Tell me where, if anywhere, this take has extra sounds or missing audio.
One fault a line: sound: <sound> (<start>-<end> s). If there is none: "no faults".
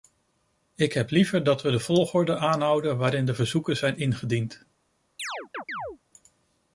sound: chirp (5.2-6.0 s)